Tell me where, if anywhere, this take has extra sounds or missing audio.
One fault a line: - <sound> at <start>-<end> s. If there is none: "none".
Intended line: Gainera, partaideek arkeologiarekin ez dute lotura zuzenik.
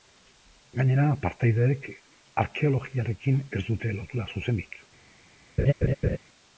- laugh at 5.6-6.2 s